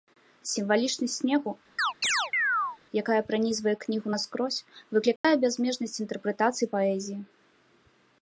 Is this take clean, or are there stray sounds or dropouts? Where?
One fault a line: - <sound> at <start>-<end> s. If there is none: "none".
- chirp at 1.8-2.8 s
- dropout at 5.2-5.2 s